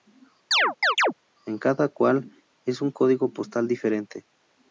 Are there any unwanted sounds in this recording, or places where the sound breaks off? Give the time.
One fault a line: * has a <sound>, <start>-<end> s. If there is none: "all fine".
* has a chirp, 0.5-1.1 s